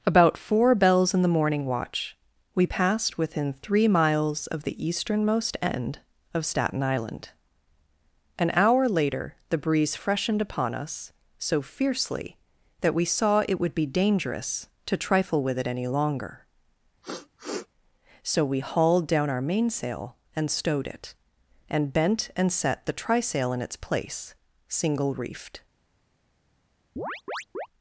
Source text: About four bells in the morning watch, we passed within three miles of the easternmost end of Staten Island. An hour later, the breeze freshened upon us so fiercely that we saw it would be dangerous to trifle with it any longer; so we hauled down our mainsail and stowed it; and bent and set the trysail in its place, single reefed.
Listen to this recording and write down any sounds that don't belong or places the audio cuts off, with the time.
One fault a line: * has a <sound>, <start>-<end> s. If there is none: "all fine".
* has a sniff, 17.0-17.7 s
* has a chirp, 27.0-27.7 s